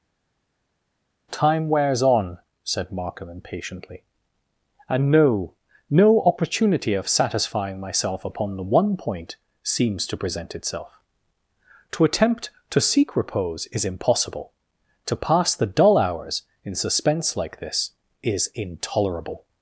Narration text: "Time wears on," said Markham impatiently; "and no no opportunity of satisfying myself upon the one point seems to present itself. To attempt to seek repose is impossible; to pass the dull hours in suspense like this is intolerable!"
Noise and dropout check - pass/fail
pass